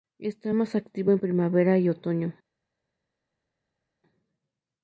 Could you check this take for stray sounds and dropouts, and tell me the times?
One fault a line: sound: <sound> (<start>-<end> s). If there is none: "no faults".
no faults